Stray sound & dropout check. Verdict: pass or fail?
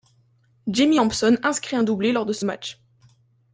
pass